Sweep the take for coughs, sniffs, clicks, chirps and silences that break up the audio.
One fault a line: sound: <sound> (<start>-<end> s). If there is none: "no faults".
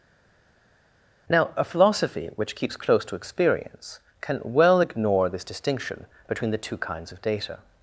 no faults